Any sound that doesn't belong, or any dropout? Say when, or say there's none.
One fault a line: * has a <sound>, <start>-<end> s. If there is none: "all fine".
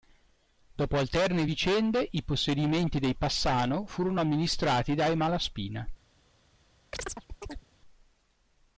* has a chirp, 6.9-7.7 s